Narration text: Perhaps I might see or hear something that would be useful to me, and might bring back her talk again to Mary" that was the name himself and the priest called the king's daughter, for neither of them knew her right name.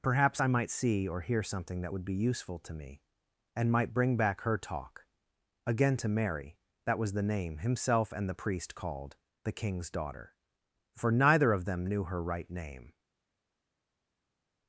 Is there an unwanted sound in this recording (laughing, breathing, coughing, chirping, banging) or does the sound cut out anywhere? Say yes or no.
no